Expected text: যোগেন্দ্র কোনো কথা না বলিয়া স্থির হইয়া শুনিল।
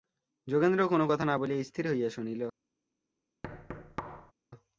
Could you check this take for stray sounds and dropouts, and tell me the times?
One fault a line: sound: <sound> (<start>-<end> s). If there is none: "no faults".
sound: thud (3.4-4.3 s)